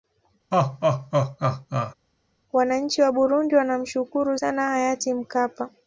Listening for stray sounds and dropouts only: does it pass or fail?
fail